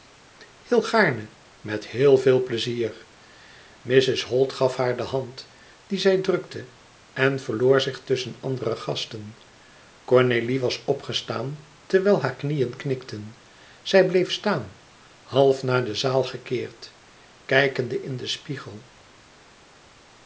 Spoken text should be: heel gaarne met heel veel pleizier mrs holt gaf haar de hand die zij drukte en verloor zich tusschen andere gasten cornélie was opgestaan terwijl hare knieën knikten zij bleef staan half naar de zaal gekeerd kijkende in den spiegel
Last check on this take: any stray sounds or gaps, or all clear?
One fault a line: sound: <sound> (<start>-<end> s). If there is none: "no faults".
no faults